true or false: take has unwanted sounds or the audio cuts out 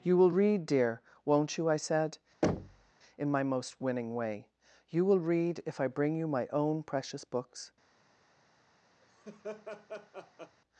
true